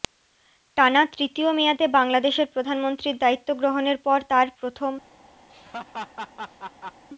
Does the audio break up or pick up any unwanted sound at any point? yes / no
yes